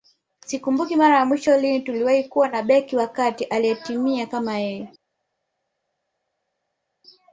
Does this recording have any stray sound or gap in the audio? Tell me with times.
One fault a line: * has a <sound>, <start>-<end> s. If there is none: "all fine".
all fine